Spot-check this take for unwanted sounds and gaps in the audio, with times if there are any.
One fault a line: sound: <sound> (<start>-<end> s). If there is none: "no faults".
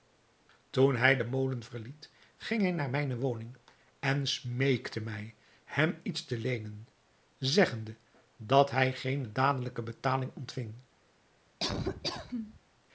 sound: laugh (11.6-12.6 s)